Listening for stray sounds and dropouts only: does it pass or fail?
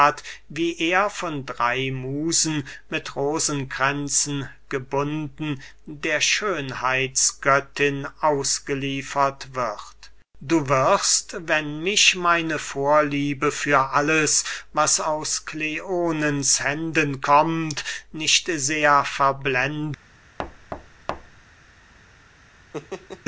fail